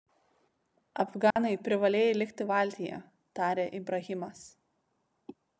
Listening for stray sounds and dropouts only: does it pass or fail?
fail